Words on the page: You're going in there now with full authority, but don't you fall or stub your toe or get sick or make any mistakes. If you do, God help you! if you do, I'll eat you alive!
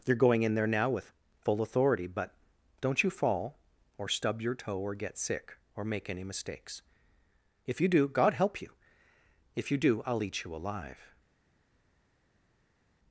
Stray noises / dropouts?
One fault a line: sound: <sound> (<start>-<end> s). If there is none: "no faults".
no faults